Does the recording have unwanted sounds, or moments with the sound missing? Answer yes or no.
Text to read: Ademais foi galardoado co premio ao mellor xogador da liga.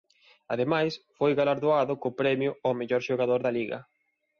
no